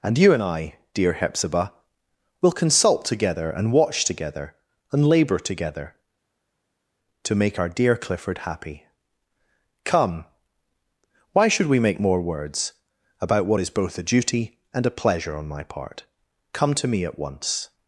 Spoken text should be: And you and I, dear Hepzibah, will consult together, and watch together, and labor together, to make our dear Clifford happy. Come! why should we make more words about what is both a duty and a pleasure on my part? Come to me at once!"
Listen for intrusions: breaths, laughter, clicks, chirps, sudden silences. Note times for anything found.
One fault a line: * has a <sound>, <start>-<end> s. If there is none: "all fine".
all fine